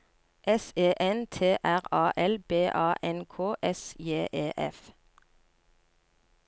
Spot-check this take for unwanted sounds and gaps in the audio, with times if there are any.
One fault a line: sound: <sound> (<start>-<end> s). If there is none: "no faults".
no faults